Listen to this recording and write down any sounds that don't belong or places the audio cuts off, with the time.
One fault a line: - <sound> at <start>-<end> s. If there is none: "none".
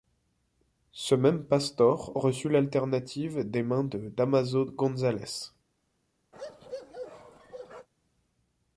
- bark at 6.3-7.9 s